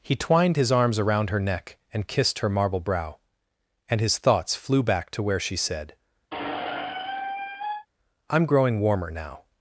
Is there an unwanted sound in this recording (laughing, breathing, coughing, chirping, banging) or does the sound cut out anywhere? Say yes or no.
yes